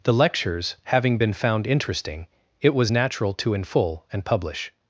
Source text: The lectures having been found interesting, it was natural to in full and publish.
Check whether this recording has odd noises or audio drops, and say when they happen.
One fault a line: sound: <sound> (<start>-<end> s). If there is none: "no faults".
no faults